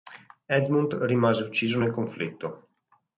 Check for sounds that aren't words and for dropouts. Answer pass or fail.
pass